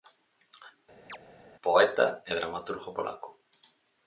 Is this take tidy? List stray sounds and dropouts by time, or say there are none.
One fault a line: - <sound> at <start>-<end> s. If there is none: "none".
- chirp at 1.1-1.2 s